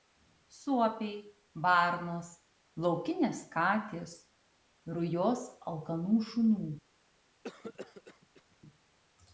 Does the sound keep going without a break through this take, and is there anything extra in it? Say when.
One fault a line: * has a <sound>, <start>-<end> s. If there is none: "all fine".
* has a cough, 7.4-8.6 s